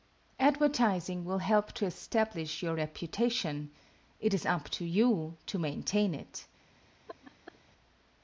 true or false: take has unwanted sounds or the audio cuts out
true